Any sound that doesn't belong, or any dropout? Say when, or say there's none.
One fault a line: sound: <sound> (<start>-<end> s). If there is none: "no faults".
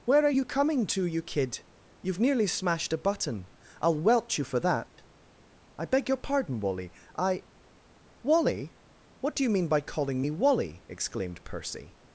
sound: dropout (4.9-5.0 s)